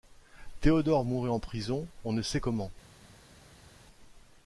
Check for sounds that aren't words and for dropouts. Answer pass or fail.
pass